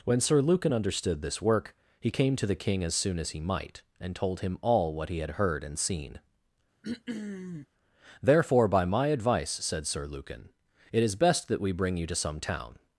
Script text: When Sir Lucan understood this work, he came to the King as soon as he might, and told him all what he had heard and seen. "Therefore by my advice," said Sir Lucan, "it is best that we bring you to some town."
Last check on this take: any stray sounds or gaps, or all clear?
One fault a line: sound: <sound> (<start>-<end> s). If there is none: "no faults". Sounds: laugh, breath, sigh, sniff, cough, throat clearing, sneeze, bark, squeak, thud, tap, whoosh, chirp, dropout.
sound: throat clearing (6.8-7.7 s)